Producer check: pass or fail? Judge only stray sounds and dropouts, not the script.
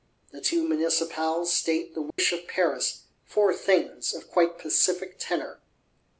fail